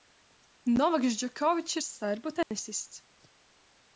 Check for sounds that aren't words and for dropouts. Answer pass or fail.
fail